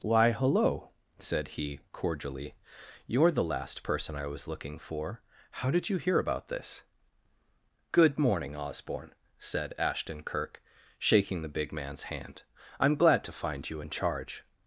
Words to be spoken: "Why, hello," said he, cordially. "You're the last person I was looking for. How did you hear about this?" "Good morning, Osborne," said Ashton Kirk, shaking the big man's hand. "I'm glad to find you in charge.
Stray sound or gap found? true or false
false